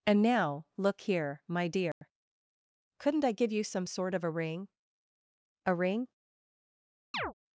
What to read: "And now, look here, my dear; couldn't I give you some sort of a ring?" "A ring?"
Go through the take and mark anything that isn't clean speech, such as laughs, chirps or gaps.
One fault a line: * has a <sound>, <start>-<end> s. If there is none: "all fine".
* has a dropout, 1.9-2.0 s
* has a chirp, 7.1-7.3 s